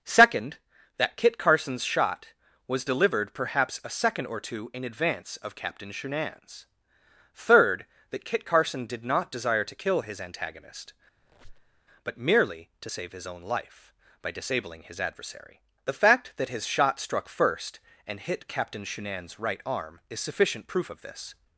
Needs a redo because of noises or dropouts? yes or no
yes